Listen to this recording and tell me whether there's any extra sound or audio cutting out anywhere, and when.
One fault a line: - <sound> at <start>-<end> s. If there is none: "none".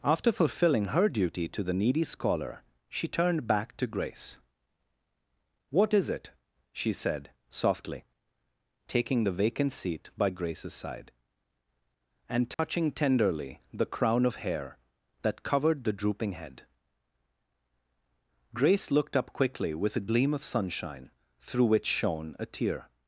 - dropout at 12.5-12.6 s